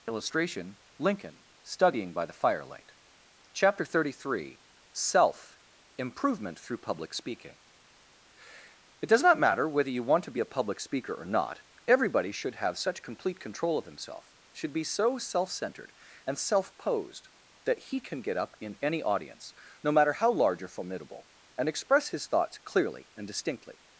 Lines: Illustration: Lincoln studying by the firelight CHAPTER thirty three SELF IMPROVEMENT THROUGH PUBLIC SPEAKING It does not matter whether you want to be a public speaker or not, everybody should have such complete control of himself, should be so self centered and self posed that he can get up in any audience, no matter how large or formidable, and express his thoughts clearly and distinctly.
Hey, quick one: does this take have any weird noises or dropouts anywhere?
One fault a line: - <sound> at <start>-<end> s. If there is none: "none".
none